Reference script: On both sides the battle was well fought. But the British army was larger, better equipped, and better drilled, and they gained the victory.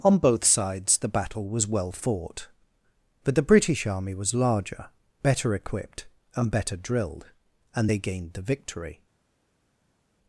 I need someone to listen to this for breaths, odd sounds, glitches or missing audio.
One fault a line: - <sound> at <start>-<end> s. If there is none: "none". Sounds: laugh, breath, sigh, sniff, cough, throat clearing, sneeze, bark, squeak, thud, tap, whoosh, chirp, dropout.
none